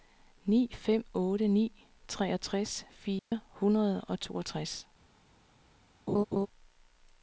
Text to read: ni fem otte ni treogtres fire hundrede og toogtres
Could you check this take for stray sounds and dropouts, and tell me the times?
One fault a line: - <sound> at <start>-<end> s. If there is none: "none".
- dropout at 3.2-3.3 s
- laugh at 6.1-6.5 s